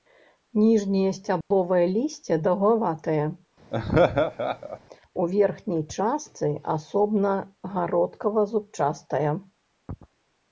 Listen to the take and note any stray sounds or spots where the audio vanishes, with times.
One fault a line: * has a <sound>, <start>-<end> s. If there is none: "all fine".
* has a dropout, 1.4-1.5 s
* has a laugh, 3.7-4.8 s